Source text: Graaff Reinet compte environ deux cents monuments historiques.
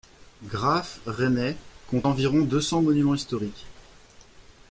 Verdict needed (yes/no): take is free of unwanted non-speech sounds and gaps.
yes